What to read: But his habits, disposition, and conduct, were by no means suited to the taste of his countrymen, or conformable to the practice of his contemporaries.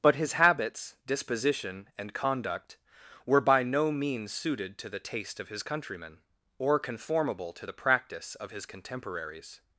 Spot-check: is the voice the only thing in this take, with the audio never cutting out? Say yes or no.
yes